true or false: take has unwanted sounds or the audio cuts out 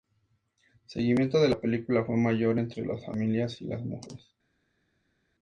false